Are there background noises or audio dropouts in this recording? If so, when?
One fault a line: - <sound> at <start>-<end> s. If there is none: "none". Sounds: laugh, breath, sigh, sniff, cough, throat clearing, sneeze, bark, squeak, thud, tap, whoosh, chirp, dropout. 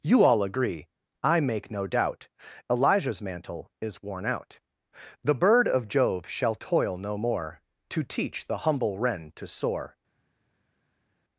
none